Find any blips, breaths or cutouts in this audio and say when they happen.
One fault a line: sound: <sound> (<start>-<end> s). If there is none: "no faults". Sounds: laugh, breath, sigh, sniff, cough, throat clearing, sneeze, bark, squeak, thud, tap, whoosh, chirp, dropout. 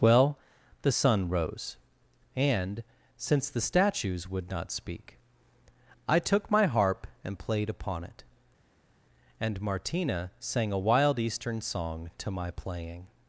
no faults